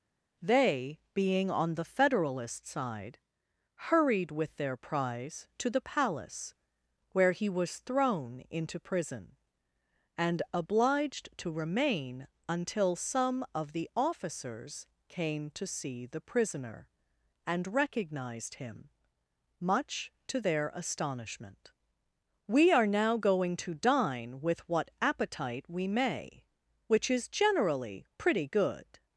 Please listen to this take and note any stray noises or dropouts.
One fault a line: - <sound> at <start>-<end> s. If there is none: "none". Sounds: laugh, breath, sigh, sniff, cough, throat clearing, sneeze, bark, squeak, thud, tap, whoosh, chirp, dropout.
none